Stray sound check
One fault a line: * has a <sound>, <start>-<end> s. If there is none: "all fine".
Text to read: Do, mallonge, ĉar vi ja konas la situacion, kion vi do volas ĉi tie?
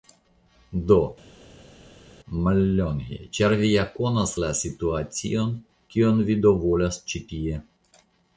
all fine